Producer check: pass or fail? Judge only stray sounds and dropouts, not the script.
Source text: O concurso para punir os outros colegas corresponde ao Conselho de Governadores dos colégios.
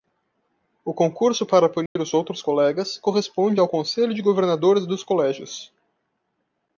fail